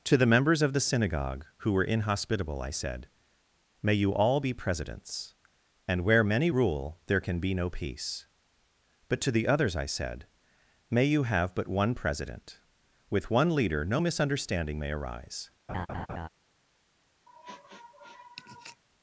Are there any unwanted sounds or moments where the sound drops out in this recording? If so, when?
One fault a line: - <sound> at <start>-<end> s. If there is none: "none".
- laugh at 15.7-16.3 s
- sniff at 17.3-18.8 s